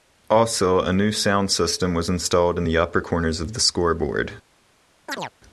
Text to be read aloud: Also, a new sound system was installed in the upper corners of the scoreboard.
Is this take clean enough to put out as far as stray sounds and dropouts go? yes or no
no